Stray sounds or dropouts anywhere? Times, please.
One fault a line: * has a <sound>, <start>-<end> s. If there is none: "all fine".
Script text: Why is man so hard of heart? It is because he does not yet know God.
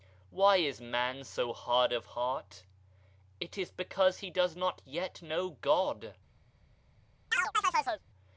* has a chirp, 7.3-8.0 s